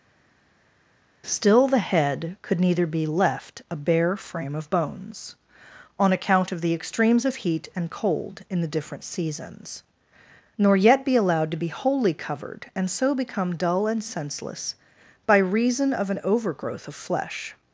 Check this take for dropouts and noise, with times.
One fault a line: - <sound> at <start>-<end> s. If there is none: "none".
none